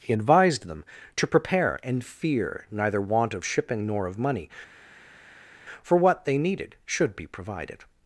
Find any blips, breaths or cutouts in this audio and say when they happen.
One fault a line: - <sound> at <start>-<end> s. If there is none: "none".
none